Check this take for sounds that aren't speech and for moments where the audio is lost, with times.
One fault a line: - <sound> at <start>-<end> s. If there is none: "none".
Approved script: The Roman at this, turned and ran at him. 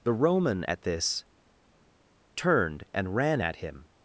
none